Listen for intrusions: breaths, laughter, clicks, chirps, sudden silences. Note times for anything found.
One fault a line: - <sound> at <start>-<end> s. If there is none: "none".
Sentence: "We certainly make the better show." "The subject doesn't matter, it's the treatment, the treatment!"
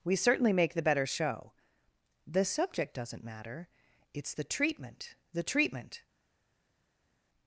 none